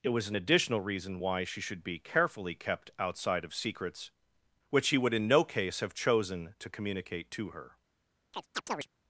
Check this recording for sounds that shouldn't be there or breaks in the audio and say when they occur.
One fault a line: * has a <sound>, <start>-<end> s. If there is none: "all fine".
* has a chirp, 8.3-8.9 s